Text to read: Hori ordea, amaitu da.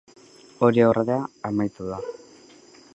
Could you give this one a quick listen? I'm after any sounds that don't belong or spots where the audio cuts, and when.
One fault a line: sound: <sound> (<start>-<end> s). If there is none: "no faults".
no faults